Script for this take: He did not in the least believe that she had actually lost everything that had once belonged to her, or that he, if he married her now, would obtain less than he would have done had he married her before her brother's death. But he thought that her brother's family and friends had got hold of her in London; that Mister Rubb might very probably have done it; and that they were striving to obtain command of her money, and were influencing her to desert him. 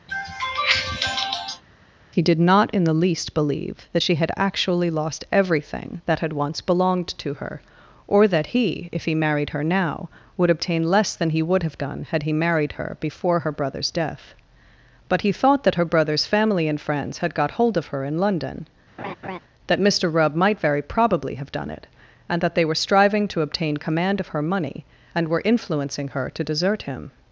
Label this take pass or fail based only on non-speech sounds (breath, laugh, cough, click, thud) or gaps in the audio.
fail